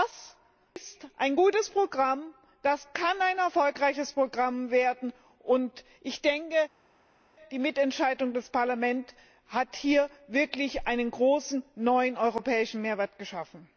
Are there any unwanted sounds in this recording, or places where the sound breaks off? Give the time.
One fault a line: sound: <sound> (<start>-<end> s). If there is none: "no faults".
no faults